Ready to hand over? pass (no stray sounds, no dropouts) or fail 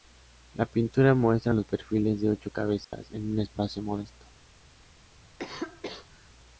fail